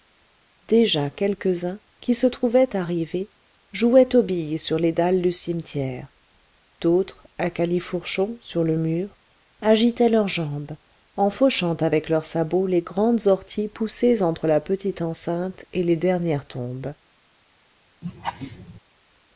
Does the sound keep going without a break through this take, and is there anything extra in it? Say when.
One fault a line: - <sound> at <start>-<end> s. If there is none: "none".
- laugh at 18.0-18.8 s